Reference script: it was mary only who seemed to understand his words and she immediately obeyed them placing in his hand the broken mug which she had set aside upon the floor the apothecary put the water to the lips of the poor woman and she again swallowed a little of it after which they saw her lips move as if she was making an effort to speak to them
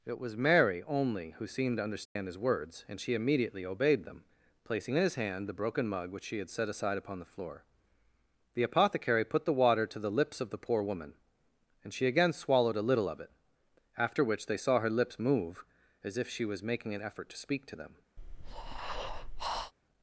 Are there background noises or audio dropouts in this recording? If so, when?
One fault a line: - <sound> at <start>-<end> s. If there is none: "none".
- dropout at 2.1-2.2 s
- breath at 18.2-19.7 s